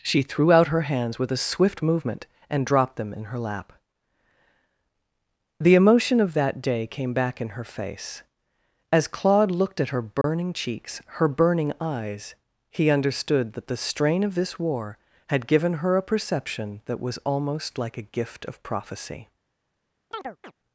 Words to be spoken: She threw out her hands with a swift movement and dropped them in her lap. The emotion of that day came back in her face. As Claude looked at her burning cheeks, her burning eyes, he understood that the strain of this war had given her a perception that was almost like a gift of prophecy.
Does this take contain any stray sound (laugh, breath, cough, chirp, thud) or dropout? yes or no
yes